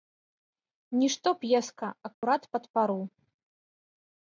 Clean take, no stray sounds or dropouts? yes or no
no